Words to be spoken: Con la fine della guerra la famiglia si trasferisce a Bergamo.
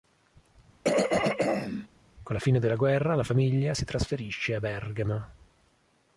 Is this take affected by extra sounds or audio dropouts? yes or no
yes